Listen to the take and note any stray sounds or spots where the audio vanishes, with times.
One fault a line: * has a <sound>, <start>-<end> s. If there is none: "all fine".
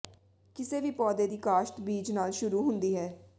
all fine